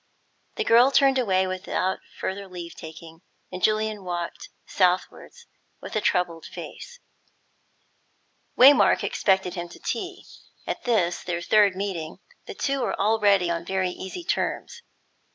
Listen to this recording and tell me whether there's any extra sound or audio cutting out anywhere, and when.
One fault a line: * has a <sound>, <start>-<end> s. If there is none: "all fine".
all fine